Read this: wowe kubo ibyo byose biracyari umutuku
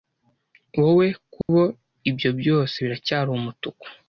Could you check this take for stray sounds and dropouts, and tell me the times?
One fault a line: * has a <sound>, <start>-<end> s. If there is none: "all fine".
* has a dropout, 1.4-1.5 s